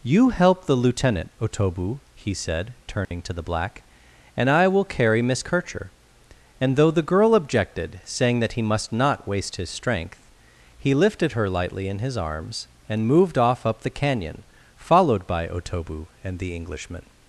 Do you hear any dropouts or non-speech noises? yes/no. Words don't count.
yes